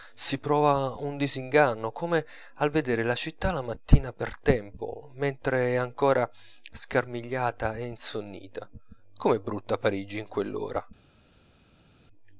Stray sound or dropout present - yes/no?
no